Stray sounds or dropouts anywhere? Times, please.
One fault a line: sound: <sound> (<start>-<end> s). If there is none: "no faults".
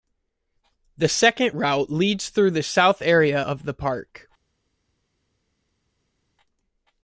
no faults